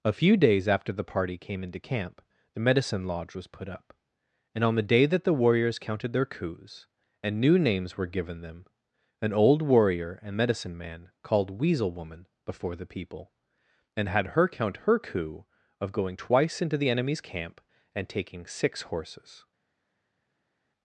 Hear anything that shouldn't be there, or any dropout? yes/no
no